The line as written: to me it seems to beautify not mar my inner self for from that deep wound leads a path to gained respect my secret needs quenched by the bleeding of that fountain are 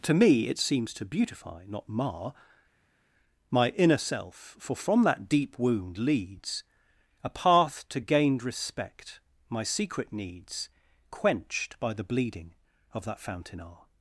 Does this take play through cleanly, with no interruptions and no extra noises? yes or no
yes